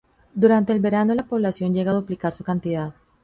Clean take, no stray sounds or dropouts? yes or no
yes